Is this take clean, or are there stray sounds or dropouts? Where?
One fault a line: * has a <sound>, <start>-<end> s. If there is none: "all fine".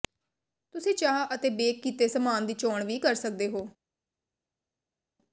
all fine